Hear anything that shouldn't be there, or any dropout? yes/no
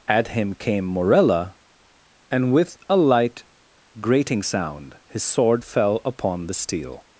no